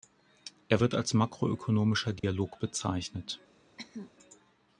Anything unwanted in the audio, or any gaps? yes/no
yes